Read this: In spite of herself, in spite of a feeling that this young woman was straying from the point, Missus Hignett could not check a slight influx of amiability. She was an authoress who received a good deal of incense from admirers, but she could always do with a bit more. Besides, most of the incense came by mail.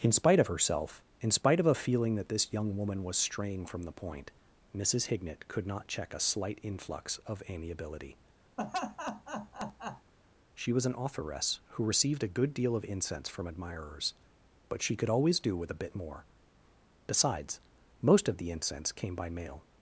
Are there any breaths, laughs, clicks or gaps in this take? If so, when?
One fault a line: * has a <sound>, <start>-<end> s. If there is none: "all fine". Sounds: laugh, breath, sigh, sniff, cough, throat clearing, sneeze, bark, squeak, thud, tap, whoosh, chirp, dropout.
* has a laugh, 8.6-10.1 s